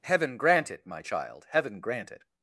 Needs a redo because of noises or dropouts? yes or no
no